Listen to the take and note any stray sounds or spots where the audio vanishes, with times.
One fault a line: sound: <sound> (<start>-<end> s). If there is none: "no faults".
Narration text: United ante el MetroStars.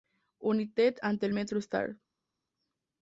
no faults